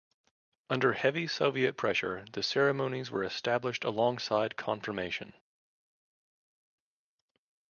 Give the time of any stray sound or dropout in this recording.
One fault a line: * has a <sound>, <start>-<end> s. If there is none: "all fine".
all fine